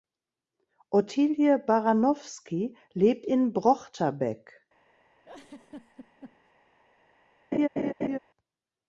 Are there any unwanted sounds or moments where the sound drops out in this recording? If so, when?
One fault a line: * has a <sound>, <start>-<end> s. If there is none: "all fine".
* has a laugh, 5.2-6.5 s
* has a laugh, 7.5-8.2 s